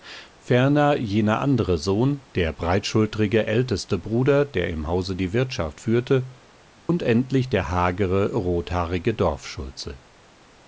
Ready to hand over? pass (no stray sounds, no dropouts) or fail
fail